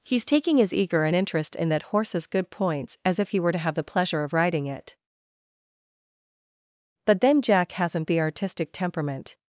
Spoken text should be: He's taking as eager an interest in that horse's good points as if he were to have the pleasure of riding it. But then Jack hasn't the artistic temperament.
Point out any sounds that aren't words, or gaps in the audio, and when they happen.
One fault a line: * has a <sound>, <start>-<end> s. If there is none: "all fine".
all fine